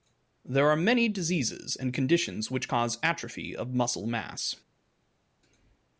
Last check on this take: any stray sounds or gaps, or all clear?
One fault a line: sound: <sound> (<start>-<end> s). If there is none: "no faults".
no faults